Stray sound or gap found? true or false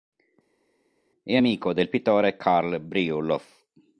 false